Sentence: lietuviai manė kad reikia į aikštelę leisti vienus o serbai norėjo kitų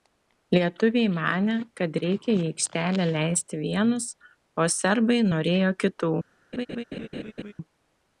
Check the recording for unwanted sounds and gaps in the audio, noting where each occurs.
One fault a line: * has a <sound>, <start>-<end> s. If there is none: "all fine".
* has a laugh, 6.5-7.5 s